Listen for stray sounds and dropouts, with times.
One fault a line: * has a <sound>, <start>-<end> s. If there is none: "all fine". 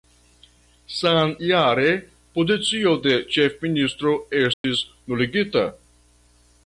* has a dropout, 4.5-4.6 s